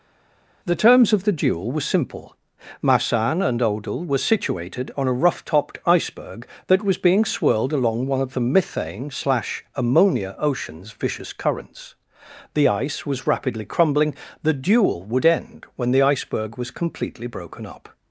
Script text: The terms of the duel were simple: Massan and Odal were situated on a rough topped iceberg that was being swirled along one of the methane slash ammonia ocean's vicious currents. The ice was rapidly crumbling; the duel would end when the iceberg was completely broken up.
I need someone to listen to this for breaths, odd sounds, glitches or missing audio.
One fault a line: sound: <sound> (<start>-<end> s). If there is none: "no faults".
no faults